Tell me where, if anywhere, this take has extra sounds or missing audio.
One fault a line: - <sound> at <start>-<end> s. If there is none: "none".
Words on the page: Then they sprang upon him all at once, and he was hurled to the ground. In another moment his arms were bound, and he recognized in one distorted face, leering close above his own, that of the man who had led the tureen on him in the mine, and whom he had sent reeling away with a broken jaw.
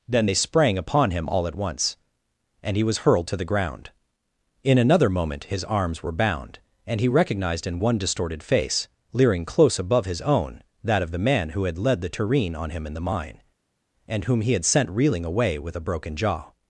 none